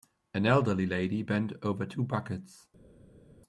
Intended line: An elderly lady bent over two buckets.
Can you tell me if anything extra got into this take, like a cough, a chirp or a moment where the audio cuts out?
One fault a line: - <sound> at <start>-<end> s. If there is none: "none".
none